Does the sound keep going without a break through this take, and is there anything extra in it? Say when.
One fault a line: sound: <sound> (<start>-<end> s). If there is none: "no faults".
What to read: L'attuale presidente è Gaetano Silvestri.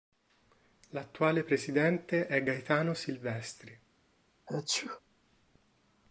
sound: sneeze (4.5-5.0 s)